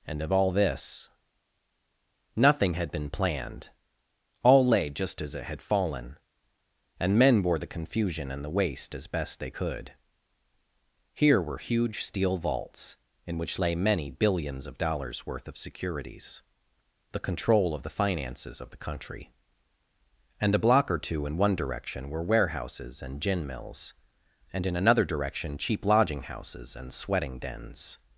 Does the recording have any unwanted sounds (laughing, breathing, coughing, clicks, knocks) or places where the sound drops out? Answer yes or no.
no